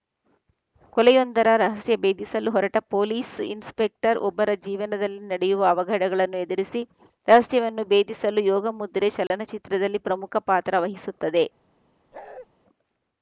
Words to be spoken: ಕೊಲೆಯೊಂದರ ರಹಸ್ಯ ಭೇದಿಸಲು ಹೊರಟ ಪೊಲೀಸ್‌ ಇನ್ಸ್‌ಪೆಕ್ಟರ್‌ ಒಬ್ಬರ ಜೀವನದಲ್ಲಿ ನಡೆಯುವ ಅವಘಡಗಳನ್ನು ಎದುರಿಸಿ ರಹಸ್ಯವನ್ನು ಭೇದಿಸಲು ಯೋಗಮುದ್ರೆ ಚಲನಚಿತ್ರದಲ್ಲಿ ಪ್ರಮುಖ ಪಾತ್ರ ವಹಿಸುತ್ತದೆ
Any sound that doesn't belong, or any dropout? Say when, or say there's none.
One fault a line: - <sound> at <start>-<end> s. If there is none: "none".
- dropout at 9.3-9.3 s
- bark at 12.1-12.5 s